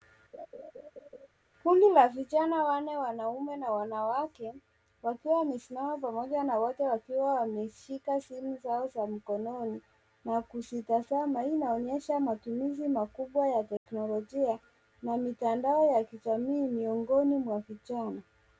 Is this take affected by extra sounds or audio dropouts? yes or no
yes